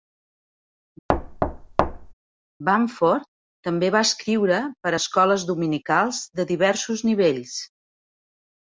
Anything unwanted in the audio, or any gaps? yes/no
yes